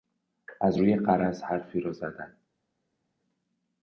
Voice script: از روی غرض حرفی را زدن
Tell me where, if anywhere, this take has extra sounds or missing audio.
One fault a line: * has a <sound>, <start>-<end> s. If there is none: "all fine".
all fine